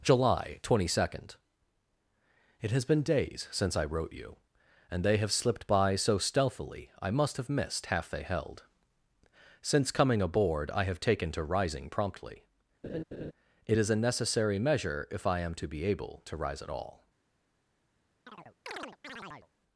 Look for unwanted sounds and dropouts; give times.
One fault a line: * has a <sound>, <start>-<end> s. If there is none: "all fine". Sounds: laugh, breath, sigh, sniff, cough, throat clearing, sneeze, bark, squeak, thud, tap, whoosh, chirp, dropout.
* has a laugh, 12.8-13.3 s
* has a chirp, 18.3-19.5 s